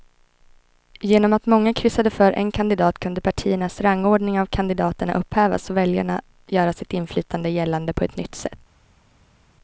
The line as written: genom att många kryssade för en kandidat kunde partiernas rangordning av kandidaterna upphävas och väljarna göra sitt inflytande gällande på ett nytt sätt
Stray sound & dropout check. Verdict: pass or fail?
pass